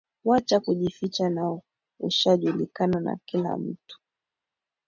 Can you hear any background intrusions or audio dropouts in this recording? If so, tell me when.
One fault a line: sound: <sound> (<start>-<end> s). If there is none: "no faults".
no faults